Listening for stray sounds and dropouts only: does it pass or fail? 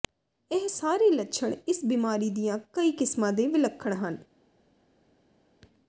pass